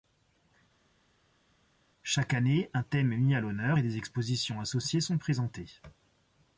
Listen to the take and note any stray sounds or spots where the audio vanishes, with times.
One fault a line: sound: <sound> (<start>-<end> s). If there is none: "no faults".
no faults